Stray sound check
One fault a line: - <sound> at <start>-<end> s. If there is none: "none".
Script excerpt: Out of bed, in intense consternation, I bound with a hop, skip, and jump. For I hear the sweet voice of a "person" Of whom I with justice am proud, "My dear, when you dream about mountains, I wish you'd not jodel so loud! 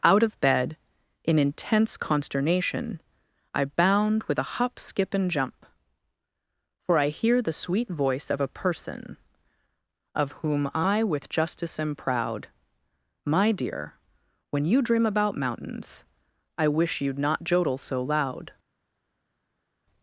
none